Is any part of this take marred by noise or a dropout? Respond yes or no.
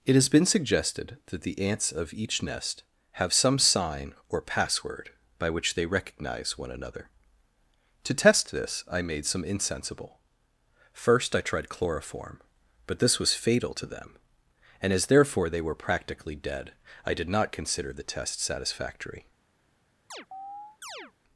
yes